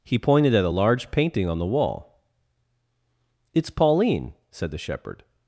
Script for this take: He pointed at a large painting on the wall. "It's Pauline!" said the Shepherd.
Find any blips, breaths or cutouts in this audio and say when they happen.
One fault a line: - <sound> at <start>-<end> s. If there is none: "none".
none